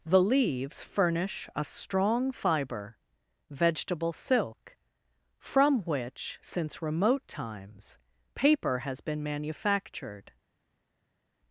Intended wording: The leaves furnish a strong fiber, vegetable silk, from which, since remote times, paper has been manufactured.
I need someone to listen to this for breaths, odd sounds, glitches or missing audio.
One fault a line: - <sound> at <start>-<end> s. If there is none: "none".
none